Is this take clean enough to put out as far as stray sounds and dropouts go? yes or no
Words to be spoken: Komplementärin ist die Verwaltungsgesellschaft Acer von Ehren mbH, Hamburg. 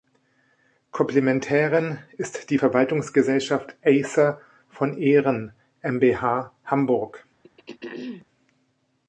no